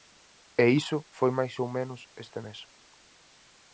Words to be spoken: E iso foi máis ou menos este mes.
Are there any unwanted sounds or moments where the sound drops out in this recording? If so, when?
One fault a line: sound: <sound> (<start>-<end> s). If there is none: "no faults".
no faults